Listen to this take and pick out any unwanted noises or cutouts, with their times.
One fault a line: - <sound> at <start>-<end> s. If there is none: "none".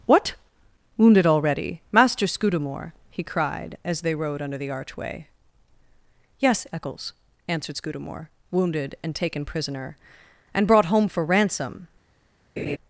- laugh at 12.6-12.8 s